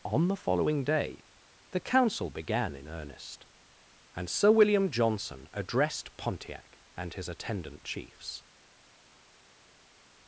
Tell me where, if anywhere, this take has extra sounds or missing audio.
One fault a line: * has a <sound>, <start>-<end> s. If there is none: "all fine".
all fine